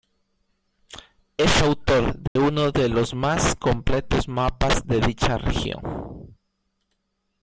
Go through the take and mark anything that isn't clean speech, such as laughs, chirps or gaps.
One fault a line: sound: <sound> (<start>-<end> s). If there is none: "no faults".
sound: dropout (2.3-2.4 s)